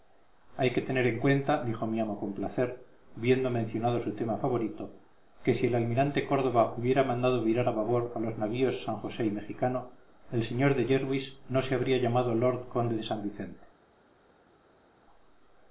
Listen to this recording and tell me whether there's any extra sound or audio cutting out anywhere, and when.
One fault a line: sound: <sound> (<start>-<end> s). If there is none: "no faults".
no faults